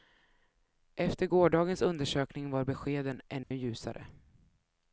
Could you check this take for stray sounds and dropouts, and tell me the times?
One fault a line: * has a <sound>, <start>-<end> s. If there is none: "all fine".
* has a dropout, 3.4-3.5 s